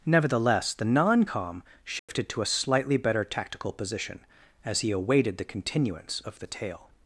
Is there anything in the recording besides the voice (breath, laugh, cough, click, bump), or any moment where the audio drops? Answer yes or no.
yes